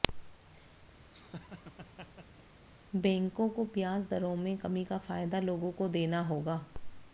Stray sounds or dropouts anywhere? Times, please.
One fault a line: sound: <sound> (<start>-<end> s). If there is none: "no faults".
sound: laugh (1.1-2.4 s)